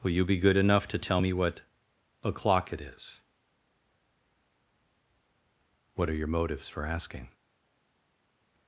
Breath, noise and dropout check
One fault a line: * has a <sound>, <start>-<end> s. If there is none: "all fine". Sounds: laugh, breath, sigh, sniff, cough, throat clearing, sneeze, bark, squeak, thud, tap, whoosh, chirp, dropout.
all fine